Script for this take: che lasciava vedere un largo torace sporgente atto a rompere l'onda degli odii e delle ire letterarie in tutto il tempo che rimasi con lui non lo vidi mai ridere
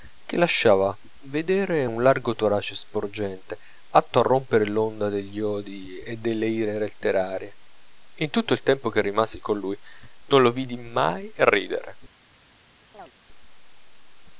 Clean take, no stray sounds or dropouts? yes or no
no